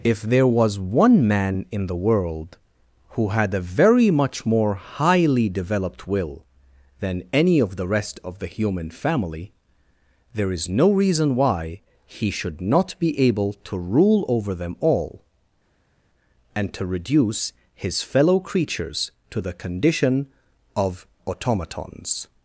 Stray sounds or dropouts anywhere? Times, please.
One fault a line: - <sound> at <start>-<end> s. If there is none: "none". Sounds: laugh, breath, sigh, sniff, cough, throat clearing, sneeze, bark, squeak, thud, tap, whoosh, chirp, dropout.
none